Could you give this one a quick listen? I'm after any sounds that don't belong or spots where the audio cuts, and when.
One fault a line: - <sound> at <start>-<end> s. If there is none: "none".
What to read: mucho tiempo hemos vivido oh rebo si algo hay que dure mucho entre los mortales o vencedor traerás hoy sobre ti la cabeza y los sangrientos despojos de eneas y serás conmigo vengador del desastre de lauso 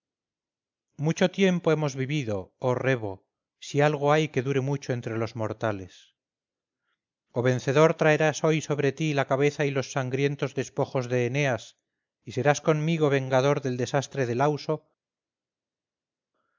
none